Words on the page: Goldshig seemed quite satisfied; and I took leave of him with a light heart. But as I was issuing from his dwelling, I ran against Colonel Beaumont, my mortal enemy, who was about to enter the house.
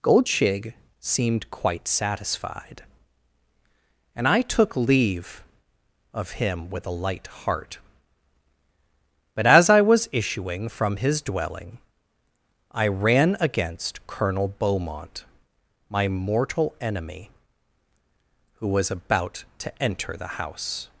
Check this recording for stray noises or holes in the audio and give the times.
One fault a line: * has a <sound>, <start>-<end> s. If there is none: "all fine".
all fine